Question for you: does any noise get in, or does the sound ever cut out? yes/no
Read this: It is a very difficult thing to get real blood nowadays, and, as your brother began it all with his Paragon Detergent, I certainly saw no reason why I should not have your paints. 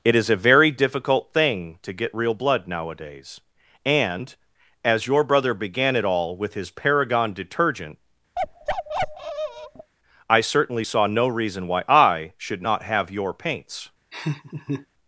yes